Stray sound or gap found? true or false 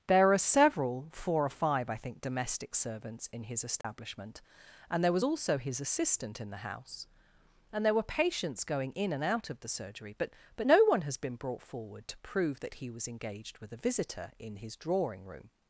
true